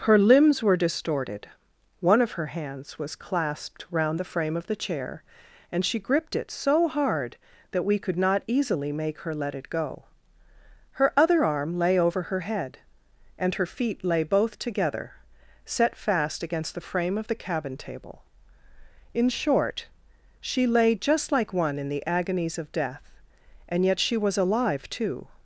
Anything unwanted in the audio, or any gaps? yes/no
no